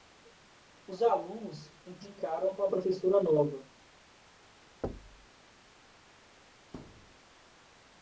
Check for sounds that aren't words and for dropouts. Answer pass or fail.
fail